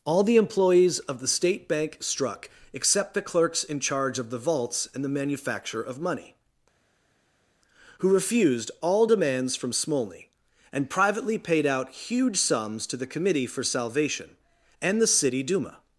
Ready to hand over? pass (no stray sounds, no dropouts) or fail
pass